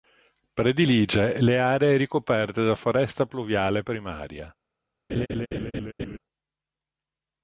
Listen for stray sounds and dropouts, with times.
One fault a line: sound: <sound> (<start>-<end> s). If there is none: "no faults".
sound: laugh (5.1-6.2 s)